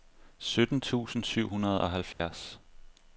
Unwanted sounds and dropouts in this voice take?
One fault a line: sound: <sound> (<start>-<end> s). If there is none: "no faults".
sound: dropout (2.1-2.2 s)